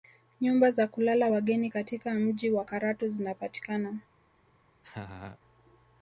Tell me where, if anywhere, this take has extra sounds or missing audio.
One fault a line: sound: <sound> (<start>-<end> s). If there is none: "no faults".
sound: laugh (4.8-5.4 s)